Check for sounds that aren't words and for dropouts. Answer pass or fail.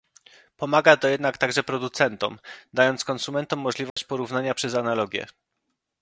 fail